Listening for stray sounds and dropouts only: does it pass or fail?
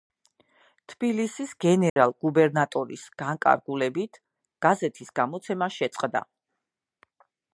fail